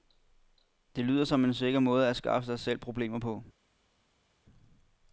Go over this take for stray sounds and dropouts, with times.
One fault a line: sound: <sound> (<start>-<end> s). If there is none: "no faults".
no faults